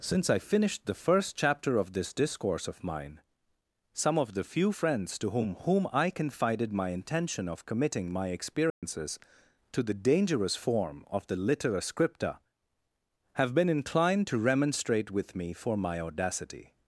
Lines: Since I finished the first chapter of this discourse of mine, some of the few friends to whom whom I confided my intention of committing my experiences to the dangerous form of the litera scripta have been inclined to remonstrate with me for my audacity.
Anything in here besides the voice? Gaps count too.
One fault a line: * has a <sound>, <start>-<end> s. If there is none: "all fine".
* has a dropout, 8.7-8.8 s